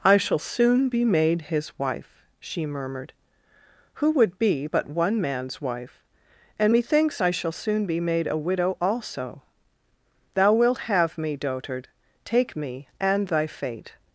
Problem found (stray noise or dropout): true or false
false